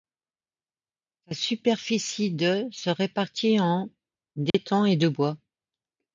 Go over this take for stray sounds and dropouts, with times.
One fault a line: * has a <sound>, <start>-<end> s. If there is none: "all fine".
* has a dropout, 4.5-4.5 s